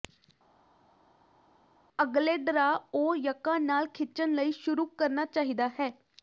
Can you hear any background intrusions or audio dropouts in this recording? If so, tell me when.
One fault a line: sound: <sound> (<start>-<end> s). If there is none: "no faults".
no faults